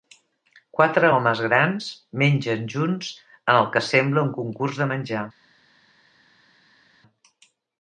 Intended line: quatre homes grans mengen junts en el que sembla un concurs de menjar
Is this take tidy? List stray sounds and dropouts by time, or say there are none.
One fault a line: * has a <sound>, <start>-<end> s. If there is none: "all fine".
all fine